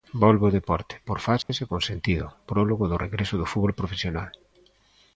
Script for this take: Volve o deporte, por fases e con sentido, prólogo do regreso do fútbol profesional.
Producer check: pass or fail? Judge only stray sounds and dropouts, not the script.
fail